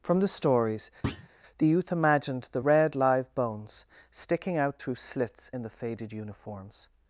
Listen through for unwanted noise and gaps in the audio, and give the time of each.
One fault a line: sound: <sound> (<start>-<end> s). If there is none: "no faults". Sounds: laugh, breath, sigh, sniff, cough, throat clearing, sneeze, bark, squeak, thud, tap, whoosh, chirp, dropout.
sound: thud (1.0-1.3 s)